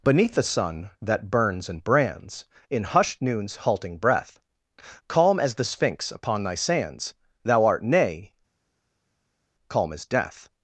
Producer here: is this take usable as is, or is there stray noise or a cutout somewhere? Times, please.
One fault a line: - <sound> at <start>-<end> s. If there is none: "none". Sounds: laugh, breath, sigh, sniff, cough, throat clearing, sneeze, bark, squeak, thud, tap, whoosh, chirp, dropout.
none